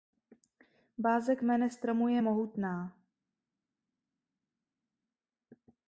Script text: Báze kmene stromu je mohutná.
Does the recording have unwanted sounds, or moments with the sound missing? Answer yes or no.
no